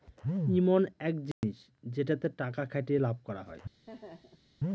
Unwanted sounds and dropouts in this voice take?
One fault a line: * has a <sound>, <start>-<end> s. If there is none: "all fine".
* has a dropout, 1.3-1.4 s
* has a laugh, 3.9-4.5 s